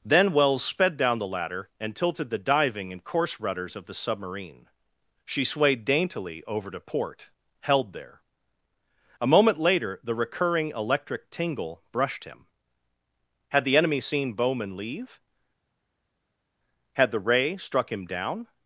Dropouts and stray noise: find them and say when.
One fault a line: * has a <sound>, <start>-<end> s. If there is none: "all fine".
all fine